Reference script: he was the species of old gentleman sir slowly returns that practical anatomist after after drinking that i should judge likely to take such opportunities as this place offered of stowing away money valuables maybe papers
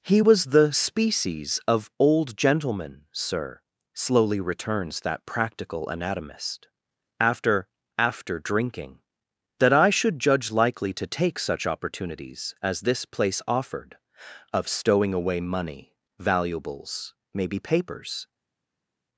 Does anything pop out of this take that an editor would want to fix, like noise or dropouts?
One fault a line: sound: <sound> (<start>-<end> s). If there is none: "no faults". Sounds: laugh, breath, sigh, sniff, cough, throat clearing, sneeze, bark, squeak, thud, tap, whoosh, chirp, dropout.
no faults